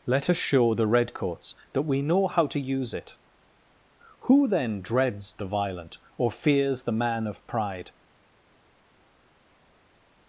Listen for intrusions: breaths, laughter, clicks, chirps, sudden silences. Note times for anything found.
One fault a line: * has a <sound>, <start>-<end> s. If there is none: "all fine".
all fine